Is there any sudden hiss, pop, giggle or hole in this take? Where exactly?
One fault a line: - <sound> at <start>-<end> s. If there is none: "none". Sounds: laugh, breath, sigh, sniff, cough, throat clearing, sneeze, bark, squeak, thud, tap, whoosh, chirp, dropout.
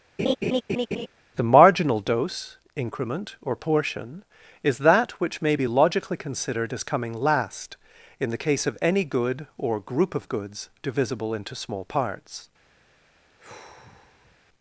- laugh at 0.2-1.1 s
- sigh at 13.3-14.4 s